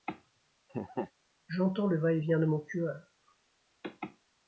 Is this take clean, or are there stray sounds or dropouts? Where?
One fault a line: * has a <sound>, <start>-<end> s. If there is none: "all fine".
* has a laugh, 0.7-1.1 s